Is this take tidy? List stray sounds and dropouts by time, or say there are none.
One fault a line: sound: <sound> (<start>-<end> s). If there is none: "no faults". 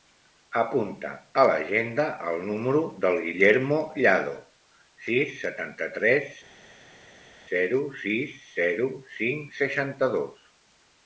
no faults